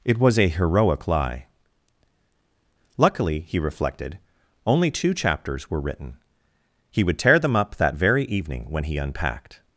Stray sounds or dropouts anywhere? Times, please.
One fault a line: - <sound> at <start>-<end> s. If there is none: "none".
none